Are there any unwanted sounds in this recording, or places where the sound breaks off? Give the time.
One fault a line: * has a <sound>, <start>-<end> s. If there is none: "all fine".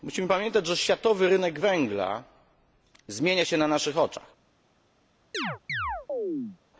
* has a chirp, 5.3-6.6 s